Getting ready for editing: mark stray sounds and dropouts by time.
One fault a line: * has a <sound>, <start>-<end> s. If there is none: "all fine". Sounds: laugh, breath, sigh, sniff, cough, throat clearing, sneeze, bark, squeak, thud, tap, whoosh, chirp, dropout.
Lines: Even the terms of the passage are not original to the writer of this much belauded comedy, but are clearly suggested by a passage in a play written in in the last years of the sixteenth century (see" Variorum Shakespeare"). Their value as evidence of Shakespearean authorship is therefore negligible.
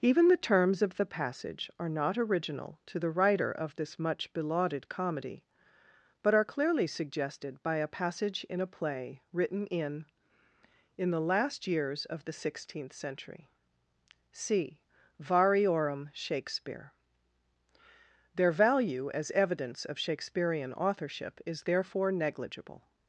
all fine